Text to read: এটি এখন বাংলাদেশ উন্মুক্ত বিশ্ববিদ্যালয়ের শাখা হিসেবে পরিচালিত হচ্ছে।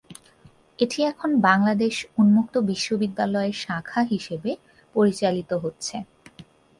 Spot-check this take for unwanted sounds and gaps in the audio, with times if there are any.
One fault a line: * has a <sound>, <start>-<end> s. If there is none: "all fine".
all fine